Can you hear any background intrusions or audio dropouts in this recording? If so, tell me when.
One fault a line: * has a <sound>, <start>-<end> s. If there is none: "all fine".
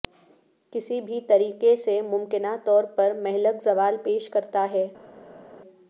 all fine